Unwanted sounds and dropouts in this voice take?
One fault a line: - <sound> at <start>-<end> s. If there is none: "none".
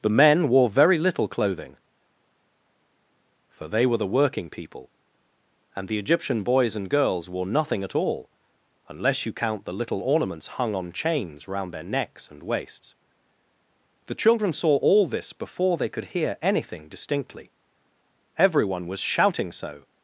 none